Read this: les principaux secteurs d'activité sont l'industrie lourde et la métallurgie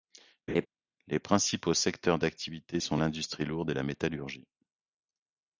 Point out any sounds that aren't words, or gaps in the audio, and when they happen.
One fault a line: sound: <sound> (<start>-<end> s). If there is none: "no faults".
sound: laugh (0.5-0.7 s)